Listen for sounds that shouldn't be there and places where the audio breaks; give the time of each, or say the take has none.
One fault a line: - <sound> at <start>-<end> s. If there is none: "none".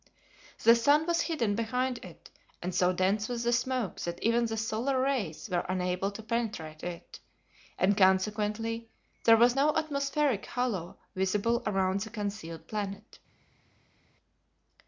none